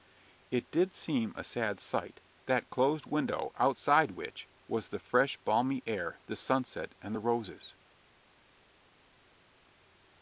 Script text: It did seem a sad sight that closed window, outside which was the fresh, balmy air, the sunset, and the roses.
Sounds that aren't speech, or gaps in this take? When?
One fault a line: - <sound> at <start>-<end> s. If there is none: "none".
none